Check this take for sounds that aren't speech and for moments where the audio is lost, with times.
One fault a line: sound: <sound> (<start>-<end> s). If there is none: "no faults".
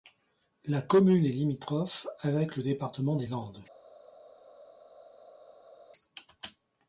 no faults